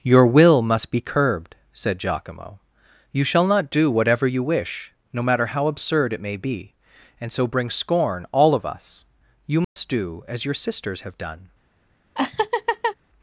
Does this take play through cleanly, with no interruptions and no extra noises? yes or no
no